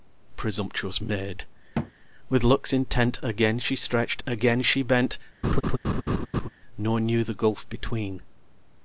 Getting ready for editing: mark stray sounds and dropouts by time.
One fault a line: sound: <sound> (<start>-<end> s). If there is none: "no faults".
sound: thud (1.7-1.9 s)
sound: laugh (5.4-6.5 s)